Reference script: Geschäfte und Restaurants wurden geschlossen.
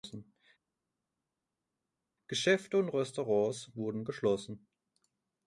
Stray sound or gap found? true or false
false